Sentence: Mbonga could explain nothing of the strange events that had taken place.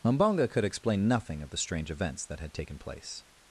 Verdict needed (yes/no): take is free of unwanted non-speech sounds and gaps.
yes